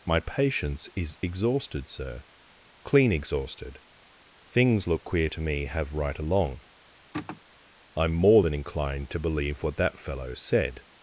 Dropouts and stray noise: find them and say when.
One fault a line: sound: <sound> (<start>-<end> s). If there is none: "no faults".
sound: sigh (7.1-7.4 s)